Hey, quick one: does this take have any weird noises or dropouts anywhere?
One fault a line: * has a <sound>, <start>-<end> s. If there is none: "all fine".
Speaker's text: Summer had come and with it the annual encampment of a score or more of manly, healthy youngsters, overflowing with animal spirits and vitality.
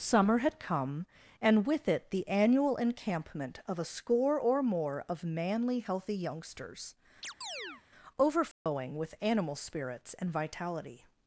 * has a chirp, 7.2-7.8 s
* has a dropout, 8.5-8.7 s